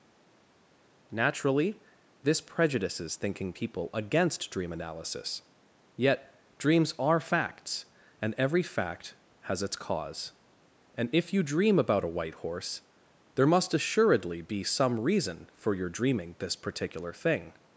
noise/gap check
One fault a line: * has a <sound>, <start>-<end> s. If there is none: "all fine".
all fine